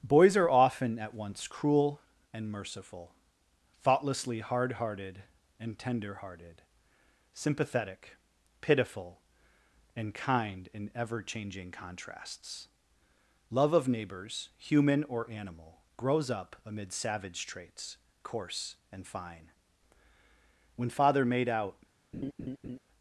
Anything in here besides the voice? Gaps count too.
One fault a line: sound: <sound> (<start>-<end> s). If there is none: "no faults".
sound: laugh (22.1-22.8 s)